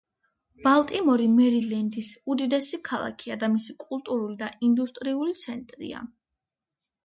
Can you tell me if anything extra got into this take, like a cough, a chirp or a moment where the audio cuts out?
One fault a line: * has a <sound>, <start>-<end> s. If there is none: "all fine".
all fine